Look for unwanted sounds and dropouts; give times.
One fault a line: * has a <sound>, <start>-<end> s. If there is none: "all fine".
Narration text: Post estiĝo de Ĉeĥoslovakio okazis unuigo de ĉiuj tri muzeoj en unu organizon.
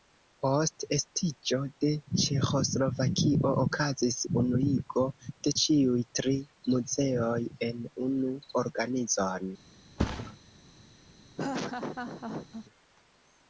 * has a thud, 10.0-10.4 s
* has a laugh, 11.4-12.7 s